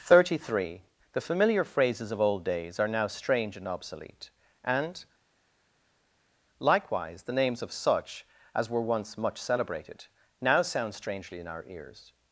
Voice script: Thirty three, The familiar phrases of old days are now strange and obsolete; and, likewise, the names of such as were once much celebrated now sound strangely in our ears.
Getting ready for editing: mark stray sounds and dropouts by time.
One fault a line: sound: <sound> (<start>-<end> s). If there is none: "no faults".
no faults